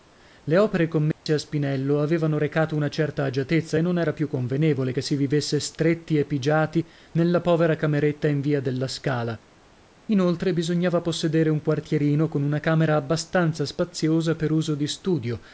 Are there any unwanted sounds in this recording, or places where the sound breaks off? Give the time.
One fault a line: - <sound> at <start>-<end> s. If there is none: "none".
- dropout at 1.1-1.3 s